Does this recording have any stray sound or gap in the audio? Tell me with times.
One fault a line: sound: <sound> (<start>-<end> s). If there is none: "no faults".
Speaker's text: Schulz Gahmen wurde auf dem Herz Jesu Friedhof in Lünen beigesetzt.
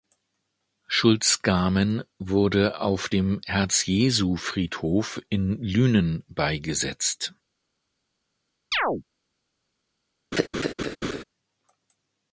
sound: chirp (8.7-9.0 s)
sound: laugh (10.3-11.2 s)